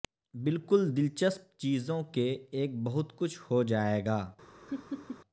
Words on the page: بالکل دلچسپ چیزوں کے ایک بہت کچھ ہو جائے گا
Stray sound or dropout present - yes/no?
yes